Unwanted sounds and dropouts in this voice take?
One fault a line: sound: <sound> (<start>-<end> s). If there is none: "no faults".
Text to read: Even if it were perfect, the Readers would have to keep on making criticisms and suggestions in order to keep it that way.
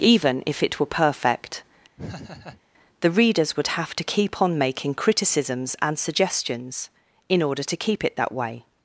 sound: laugh (2.0-2.6 s)